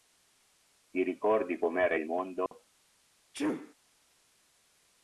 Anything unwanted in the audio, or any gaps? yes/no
yes